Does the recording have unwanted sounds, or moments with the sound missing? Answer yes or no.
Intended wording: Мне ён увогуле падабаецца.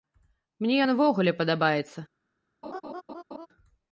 yes